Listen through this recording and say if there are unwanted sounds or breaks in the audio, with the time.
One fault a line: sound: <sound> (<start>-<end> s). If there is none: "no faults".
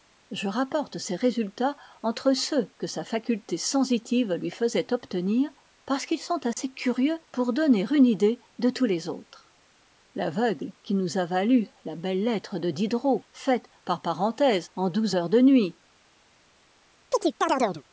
sound: dropout (6.5-6.6 s)
sound: chirp (17.1-17.8 s)